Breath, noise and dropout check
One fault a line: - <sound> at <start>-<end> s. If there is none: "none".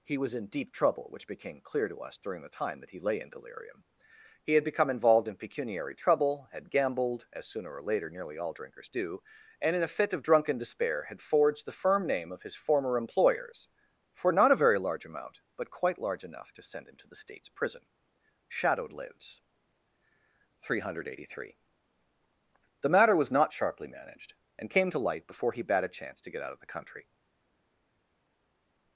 none